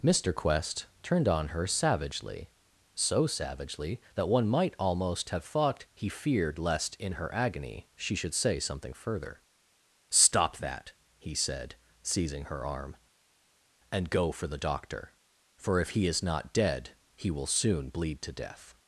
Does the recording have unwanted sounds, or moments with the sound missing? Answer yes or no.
no